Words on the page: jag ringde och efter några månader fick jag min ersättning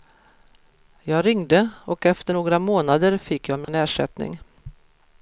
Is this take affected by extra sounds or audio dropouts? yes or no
yes